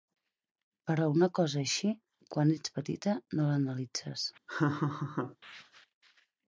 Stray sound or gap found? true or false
true